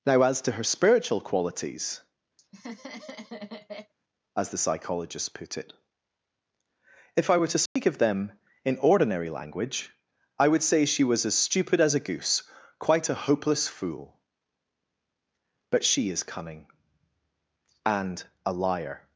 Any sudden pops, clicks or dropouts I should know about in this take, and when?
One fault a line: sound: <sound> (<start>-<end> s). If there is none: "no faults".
sound: laugh (2.4-3.9 s)
sound: dropout (7.7-7.8 s)